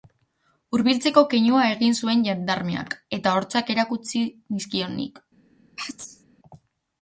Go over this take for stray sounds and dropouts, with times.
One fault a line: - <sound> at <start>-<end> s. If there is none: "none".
- sneeze at 5.8-6.2 s